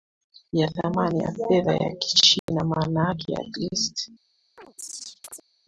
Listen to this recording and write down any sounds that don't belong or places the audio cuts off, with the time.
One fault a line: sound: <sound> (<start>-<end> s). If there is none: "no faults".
sound: dropout (2.4-2.5 s)
sound: chirp (4.6-5.5 s)